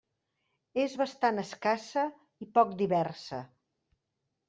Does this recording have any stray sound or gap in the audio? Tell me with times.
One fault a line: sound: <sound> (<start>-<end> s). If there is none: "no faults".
no faults